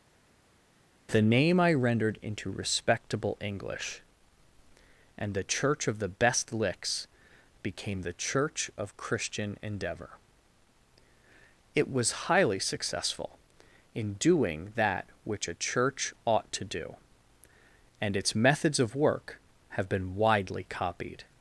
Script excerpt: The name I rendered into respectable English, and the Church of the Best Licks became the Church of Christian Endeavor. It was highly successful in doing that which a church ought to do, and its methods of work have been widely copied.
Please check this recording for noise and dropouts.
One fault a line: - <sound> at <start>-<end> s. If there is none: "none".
none